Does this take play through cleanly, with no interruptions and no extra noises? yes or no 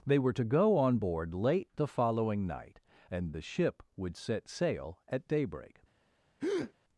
no